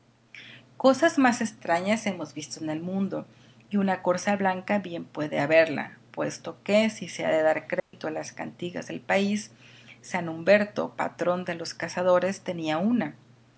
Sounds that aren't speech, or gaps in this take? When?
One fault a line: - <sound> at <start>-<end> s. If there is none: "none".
- dropout at 7.8-7.9 s